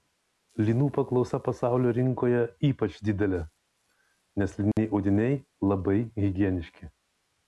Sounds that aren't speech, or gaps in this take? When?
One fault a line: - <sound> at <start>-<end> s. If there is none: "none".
- dropout at 4.7-4.8 s